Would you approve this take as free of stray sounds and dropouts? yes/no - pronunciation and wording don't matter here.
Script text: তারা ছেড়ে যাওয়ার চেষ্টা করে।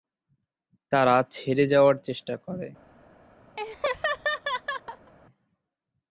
no